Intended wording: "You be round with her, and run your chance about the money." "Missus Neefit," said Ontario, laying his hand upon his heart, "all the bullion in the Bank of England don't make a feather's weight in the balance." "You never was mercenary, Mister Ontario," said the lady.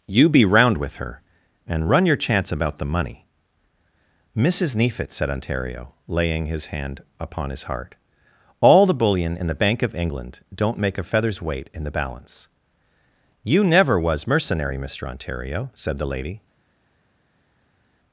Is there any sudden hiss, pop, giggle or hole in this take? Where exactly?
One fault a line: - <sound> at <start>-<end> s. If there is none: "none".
none